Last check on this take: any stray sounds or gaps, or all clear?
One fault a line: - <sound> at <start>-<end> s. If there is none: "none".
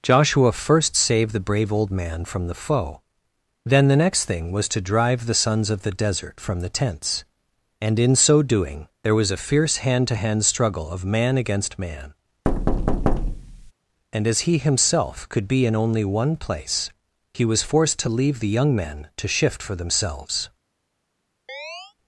- thud at 12.4-13.7 s
- chirp at 21.5-21.9 s